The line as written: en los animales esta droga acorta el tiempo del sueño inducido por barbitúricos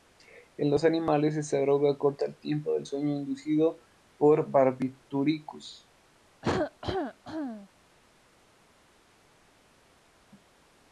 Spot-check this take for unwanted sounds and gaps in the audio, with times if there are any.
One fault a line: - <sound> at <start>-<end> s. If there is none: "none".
- cough at 6.4-7.7 s